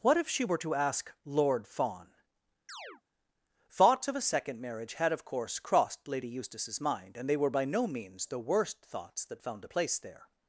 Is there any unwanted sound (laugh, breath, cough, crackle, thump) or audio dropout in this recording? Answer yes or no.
yes